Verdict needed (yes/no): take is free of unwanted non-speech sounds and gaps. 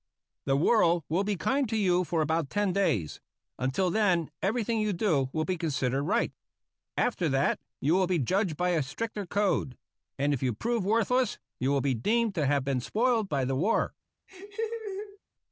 no